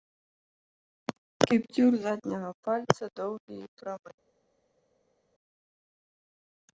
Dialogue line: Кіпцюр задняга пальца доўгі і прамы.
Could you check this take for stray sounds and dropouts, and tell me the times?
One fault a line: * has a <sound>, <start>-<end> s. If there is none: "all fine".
all fine